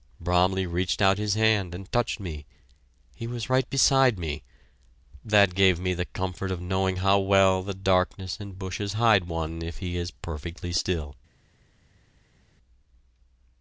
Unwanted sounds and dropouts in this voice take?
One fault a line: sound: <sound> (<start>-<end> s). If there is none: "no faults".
no faults